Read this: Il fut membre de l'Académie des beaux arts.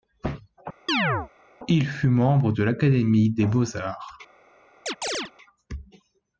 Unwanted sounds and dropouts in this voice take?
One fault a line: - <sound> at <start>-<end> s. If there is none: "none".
- chirp at 0.9-1.3 s
- chirp at 4.9-5.3 s